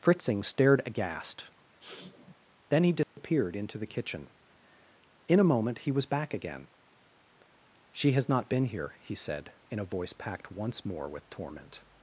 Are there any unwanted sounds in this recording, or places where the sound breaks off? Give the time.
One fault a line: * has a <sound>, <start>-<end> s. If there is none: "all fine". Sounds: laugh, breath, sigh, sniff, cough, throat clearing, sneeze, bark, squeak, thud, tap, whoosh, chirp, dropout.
* has a sniff, 1.8-2.3 s
* has a dropout, 3.0-3.2 s